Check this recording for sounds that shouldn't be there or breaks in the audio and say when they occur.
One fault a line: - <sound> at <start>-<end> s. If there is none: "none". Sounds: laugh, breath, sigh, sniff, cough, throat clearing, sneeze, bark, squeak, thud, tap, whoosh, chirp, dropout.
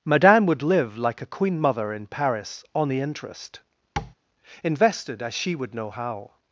- tap at 4.0-4.1 s